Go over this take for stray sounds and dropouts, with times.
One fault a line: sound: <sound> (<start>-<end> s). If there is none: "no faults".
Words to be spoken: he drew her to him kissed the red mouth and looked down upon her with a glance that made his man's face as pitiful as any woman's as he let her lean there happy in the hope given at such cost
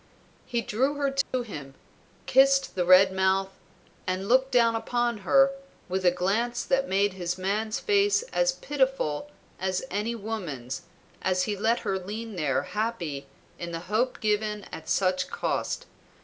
sound: dropout (1.2-1.3 s)